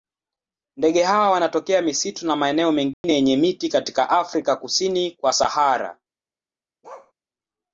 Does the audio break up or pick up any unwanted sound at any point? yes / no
yes